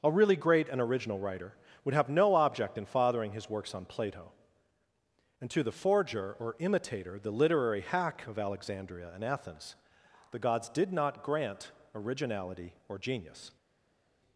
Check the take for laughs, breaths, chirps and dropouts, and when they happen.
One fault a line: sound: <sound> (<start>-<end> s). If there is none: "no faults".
no faults